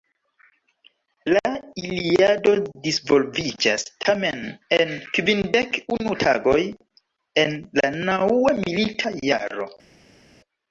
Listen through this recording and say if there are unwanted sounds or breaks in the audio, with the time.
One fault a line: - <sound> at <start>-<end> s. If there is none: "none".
none